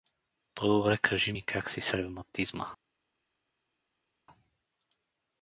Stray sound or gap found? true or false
false